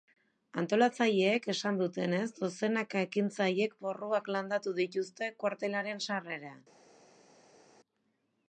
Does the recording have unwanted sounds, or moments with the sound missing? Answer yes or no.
no